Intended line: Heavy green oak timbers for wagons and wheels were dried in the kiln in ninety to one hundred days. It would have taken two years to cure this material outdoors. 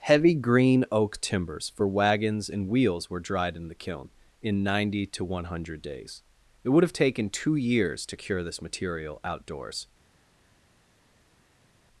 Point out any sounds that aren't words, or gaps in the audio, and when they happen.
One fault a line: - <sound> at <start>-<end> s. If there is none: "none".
none